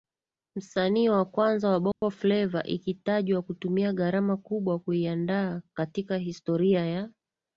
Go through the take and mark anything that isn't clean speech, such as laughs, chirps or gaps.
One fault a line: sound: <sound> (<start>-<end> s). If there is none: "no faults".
sound: dropout (1.9-2.0 s)